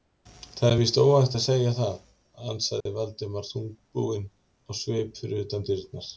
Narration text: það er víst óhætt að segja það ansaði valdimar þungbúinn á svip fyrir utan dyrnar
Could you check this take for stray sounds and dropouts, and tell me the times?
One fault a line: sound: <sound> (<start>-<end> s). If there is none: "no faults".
sound: dropout (2.8-2.9 s)